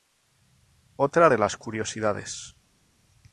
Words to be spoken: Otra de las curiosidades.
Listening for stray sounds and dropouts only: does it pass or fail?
pass